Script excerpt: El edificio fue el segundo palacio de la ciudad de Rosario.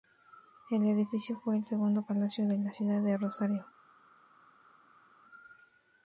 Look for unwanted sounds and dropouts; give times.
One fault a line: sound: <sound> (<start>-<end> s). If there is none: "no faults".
no faults